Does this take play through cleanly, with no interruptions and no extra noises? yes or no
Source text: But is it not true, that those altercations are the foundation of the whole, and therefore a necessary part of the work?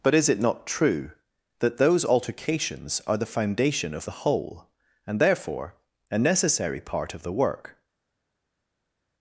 yes